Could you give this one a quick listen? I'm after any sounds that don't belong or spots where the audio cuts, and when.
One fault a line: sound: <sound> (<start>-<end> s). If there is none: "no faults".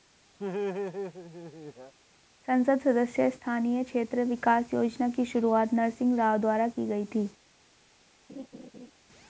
sound: laugh (0.4-1.9 s)
sound: laugh (8.3-8.9 s)